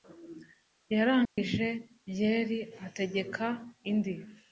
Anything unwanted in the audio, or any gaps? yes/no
yes